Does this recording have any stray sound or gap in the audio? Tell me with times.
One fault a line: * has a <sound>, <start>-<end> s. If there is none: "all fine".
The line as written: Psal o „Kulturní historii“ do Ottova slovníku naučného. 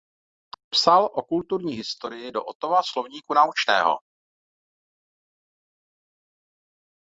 all fine